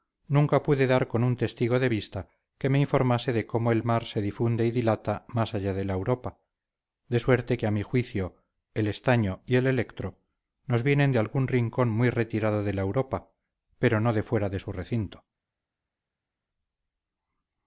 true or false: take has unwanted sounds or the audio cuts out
false